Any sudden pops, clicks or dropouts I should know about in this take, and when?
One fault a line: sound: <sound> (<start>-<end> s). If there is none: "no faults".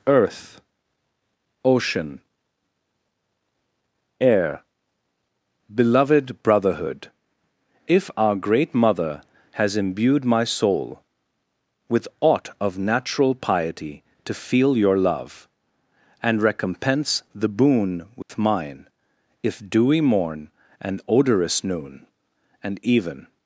sound: dropout (18.2-18.3 s)